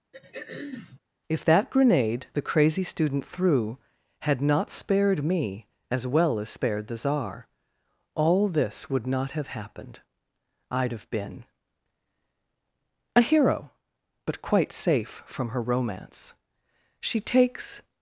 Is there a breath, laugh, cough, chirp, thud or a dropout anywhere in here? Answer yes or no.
yes